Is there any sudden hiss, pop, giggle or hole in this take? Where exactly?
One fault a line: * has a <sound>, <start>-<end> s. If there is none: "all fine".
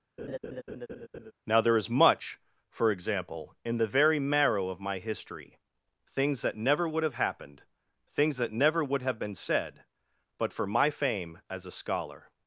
* has a laugh, 0.2-1.3 s